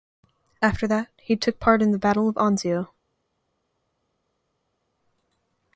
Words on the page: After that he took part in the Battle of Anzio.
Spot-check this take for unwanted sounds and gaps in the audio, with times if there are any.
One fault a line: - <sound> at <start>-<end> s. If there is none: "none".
none